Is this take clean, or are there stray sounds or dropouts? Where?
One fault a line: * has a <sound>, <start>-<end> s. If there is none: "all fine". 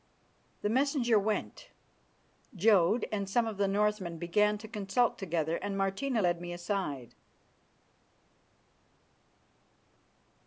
all fine